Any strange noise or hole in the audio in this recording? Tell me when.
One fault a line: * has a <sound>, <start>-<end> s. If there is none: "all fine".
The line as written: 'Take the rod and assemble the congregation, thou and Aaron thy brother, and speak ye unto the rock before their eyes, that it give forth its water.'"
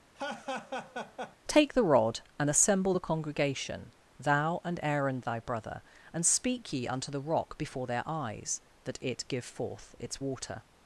* has a laugh, 0.2-1.4 s